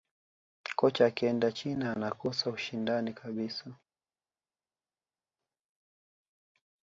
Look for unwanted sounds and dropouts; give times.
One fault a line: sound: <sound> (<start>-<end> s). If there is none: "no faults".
no faults